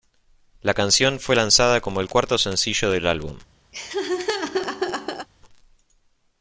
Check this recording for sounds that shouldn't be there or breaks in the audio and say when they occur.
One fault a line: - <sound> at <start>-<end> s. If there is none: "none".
- laugh at 3.7-5.3 s